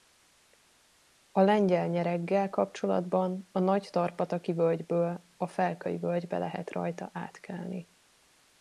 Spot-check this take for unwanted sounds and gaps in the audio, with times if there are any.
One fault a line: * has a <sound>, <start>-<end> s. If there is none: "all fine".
all fine